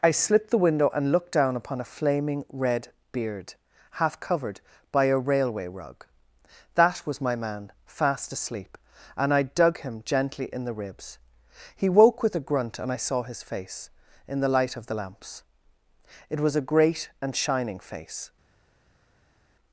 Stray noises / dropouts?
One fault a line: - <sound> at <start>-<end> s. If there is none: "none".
none